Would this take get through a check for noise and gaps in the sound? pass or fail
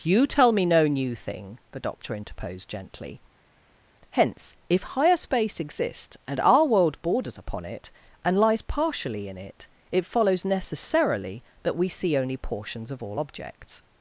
pass